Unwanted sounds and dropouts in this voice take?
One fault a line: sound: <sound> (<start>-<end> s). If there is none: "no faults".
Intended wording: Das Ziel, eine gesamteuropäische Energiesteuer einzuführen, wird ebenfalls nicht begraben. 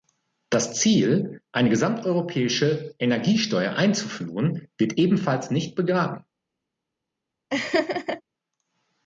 sound: laugh (7.5-8.2 s)